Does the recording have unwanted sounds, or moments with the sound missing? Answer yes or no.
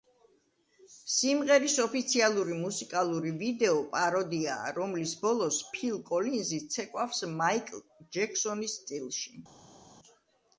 no